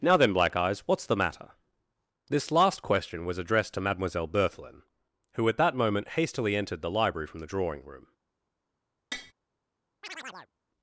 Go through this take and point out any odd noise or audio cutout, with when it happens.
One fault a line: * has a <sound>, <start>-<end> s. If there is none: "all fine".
* has a tap, 9.1-9.3 s
* has a chirp, 10.0-10.5 s